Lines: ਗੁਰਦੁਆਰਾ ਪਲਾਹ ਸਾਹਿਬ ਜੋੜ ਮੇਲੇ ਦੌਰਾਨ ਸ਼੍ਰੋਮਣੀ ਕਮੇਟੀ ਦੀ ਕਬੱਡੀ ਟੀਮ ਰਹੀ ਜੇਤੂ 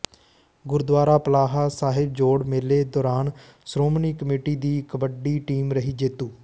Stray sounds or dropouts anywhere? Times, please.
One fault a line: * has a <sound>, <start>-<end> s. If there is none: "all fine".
all fine